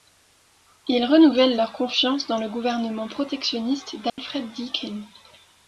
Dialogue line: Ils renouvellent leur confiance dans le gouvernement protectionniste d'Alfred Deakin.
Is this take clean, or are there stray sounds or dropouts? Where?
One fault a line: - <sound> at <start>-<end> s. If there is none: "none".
- dropout at 4.1-4.2 s